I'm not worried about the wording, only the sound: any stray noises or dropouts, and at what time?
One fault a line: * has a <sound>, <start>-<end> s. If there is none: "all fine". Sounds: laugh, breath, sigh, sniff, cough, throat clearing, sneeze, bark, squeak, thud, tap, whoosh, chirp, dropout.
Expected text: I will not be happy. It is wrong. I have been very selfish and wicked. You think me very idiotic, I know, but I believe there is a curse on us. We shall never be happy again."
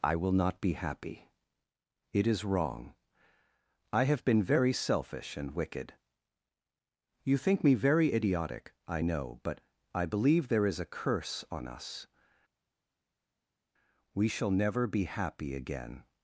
all fine